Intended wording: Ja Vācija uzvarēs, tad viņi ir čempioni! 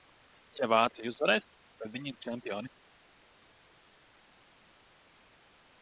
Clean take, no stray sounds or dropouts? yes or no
yes